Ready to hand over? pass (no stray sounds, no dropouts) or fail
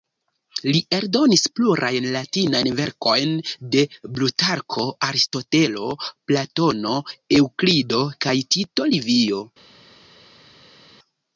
pass